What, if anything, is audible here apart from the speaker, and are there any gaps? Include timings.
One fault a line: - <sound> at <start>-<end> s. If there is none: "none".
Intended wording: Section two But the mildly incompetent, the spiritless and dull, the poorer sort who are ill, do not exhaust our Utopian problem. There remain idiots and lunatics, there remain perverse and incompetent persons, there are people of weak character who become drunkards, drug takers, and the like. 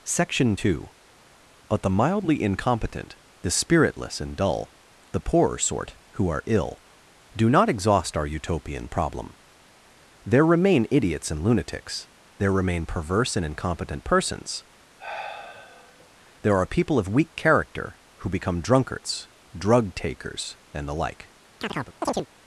- sigh at 15.0-16.1 s
- chirp at 21.6-22.3 s